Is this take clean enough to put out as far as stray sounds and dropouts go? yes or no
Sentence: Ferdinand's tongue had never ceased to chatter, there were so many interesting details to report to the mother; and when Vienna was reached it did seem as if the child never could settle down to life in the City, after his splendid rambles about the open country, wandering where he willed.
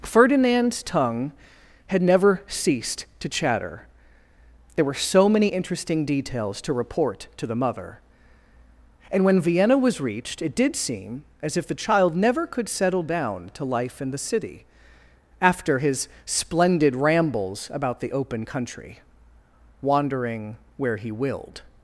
yes